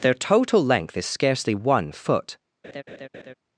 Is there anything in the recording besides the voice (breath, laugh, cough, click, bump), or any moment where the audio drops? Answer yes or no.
yes